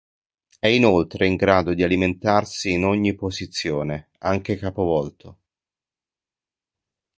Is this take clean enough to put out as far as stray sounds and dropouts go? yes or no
yes